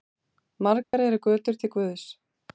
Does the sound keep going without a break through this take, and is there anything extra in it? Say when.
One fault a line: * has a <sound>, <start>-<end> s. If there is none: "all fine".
* has a dropout, 0.8-0.9 s